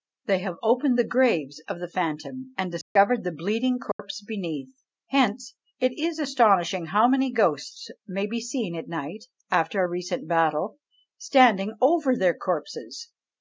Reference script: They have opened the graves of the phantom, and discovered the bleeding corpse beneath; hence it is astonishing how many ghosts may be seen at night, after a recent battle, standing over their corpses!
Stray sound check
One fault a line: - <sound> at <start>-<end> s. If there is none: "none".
- dropout at 2.8-3.0 s
- dropout at 3.9-4.0 s